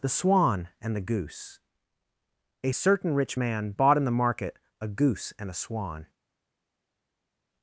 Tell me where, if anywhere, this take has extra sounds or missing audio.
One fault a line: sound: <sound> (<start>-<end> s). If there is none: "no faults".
no faults